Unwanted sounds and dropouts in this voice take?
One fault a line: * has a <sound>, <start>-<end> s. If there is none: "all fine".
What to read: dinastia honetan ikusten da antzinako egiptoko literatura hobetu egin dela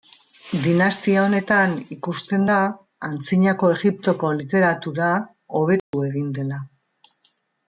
* has a dropout, 5.8-5.9 s